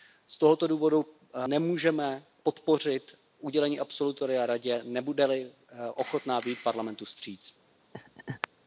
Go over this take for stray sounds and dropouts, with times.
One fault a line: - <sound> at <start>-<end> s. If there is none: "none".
- laugh at 7.9-8.5 s